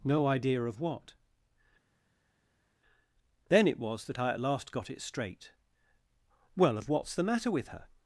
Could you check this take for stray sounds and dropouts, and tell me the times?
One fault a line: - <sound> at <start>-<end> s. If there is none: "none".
none